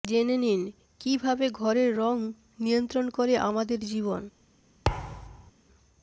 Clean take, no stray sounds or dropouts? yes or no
no